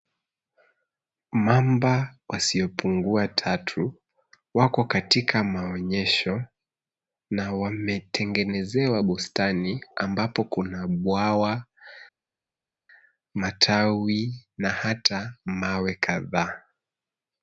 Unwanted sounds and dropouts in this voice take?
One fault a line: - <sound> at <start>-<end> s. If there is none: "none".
none